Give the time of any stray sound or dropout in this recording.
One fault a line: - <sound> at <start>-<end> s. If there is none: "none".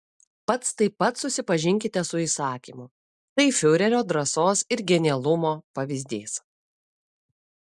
none